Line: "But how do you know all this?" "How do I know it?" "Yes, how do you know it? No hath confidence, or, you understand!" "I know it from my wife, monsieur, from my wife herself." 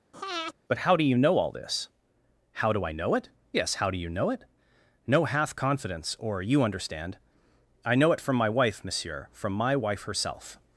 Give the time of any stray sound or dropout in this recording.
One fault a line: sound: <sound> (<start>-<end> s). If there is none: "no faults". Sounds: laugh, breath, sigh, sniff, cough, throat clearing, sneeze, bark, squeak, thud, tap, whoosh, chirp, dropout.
sound: breath (0.1-0.5 s)